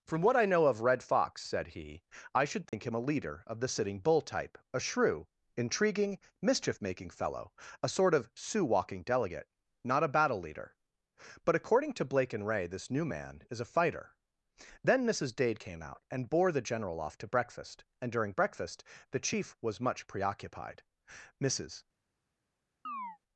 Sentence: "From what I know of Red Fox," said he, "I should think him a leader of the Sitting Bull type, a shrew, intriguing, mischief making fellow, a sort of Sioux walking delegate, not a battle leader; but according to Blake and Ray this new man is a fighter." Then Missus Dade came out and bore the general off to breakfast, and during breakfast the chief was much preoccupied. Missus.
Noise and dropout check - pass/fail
fail